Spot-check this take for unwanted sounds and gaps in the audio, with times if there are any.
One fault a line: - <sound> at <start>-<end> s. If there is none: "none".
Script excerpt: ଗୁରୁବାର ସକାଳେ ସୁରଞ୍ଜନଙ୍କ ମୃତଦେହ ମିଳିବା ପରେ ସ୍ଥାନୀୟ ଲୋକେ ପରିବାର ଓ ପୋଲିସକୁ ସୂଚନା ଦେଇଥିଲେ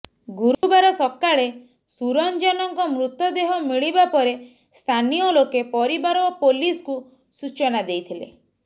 - dropout at 0.5-0.6 s